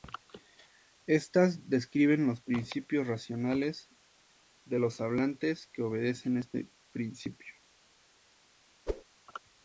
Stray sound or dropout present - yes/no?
yes